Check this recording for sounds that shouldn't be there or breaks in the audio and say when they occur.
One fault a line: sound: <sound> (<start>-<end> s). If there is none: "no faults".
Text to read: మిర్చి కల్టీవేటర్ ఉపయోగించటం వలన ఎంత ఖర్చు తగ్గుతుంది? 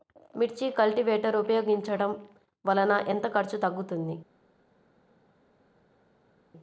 no faults